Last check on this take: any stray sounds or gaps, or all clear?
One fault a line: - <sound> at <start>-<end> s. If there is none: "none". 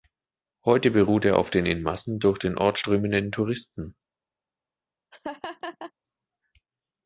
- laugh at 5.1-5.9 s